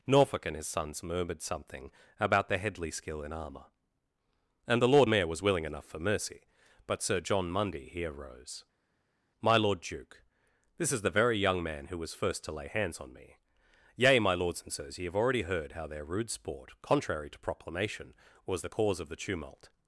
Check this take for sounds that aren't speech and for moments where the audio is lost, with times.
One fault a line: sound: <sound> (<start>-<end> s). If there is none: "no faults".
no faults